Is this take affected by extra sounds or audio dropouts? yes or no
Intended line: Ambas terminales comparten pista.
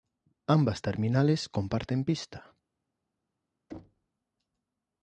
yes